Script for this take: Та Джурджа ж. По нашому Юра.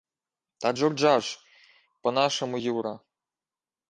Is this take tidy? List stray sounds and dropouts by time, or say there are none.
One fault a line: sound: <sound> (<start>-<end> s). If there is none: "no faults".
no faults